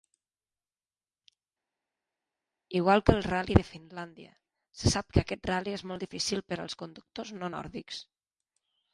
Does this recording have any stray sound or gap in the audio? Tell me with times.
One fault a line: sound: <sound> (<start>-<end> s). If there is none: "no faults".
no faults